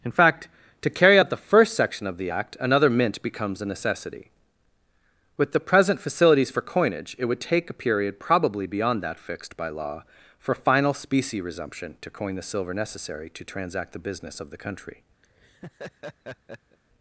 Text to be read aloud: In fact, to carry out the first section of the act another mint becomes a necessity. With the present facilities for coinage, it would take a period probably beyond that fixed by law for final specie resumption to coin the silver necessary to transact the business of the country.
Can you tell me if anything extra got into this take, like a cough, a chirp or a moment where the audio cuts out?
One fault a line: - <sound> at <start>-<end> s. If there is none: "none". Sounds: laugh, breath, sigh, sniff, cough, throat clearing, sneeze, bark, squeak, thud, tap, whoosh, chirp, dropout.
- laugh at 15.2-16.8 s